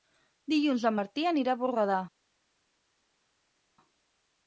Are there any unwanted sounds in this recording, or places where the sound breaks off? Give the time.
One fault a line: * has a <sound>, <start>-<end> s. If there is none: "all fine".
all fine